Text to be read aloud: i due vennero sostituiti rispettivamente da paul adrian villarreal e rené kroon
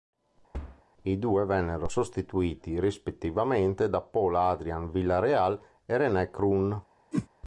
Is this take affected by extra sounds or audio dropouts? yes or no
yes